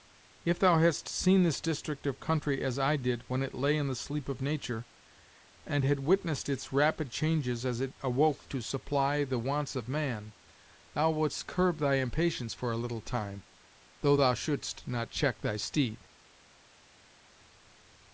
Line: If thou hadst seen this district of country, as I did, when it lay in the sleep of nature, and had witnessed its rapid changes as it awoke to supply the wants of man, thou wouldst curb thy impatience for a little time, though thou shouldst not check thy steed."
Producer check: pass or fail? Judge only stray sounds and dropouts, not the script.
pass